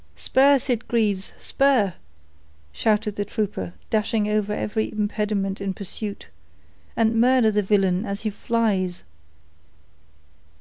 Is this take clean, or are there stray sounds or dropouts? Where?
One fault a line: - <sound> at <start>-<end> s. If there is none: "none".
none